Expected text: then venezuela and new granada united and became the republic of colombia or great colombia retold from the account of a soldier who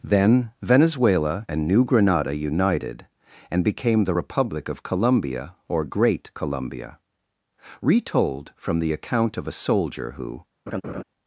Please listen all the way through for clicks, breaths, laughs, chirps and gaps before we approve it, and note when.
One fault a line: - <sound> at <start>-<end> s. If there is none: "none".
- laugh at 10.7-11.0 s